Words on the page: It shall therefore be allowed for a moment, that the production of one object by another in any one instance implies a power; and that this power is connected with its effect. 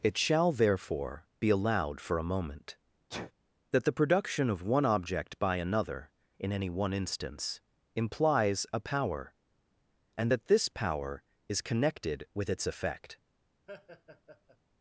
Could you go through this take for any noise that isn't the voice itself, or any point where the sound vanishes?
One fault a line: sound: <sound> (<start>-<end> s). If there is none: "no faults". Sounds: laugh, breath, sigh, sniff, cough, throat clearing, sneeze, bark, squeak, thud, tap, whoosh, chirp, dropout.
sound: sneeze (3.1-3.3 s)
sound: laugh (13.7-14.6 s)